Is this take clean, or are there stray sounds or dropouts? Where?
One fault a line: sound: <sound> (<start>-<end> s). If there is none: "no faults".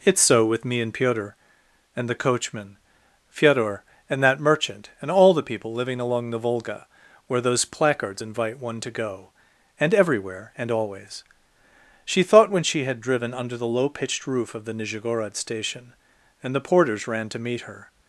no faults